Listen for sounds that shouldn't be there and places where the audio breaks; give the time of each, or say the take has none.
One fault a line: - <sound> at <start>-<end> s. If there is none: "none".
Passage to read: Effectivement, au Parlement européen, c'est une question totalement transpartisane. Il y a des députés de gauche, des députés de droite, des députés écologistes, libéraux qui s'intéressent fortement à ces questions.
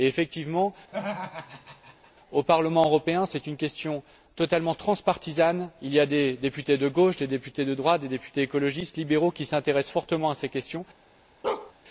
- laugh at 0.9-2.1 s
- bark at 11.4-11.7 s